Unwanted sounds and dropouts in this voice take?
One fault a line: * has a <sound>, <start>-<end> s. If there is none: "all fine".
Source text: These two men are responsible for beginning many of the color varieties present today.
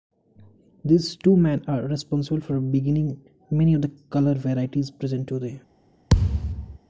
* has a thud, 6.1-6.8 s